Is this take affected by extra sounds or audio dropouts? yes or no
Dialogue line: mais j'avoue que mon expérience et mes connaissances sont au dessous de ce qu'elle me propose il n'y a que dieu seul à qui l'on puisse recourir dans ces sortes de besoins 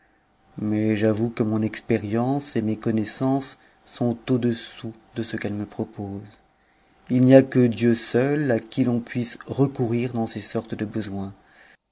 no